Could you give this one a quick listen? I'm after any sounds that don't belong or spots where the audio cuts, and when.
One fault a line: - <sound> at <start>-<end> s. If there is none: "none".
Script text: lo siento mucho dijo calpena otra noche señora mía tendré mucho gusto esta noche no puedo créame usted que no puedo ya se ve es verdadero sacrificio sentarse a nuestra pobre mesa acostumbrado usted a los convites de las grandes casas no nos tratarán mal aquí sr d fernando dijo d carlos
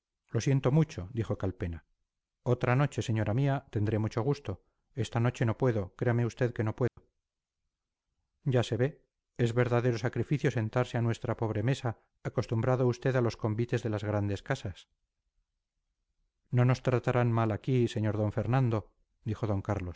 - dropout at 6.9-7.0 s